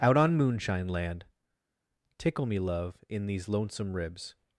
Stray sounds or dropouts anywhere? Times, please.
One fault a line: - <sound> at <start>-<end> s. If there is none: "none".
none